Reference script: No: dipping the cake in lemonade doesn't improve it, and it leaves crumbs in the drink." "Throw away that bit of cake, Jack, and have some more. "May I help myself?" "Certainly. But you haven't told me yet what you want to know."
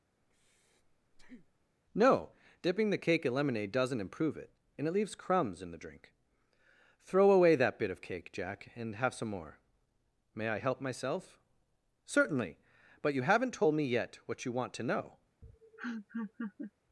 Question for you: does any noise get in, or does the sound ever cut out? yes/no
yes